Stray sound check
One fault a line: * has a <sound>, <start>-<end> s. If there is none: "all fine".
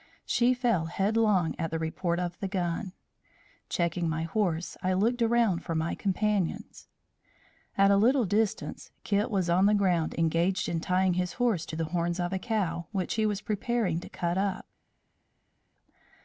all fine